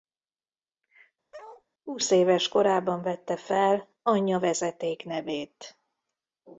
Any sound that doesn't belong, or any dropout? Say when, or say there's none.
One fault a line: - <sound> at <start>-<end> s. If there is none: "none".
- bark at 1.3-1.6 s